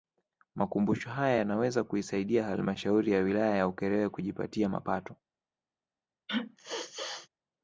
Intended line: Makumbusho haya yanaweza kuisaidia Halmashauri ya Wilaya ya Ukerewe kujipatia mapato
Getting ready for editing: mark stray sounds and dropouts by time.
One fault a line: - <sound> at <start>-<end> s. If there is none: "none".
- sneeze at 6.3-7.3 s